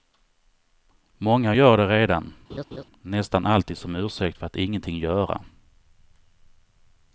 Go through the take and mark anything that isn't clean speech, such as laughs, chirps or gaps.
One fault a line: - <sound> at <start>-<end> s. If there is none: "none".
- laugh at 2.5-2.8 s